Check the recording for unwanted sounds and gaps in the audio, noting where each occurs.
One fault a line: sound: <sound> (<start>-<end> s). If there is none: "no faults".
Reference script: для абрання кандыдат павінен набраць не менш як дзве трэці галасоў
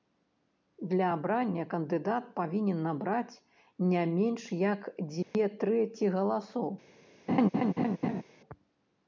sound: dropout (5.2-5.3 s)
sound: laugh (7.3-8.2 s)